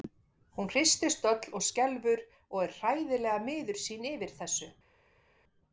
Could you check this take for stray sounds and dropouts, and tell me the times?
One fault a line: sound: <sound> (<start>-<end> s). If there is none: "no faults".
no faults